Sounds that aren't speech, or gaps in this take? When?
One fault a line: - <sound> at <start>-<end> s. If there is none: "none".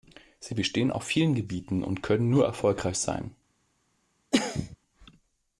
- cough at 4.3-4.8 s